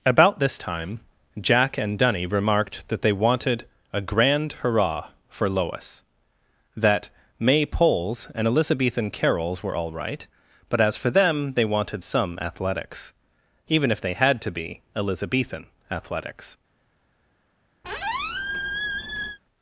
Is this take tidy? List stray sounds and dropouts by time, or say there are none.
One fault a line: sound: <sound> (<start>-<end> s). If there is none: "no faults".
sound: squeak (17.8-19.4 s)